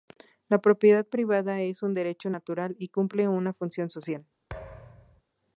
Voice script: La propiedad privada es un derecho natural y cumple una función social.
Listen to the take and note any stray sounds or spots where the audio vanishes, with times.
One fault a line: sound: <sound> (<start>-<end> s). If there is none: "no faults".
sound: thud (4.5-5.2 s)